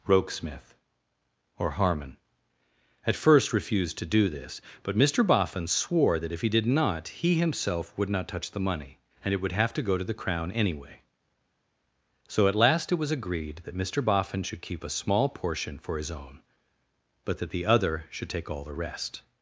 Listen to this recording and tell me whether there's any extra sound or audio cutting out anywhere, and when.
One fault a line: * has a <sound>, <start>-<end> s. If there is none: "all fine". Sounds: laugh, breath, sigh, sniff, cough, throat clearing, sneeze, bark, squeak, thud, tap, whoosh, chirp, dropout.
all fine